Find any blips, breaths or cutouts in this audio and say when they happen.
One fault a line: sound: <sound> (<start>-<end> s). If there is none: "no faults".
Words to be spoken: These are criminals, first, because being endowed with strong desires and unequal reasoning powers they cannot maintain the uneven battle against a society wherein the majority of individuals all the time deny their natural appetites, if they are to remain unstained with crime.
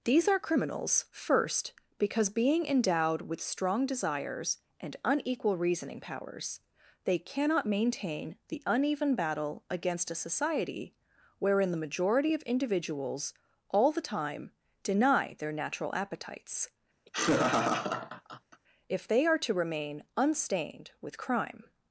sound: laugh (17.1-18.6 s)